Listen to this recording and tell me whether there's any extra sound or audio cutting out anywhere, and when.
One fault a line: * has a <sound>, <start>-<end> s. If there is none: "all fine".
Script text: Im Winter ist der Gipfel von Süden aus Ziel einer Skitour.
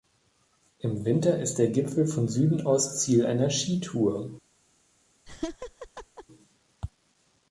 * has a laugh, 5.3-6.2 s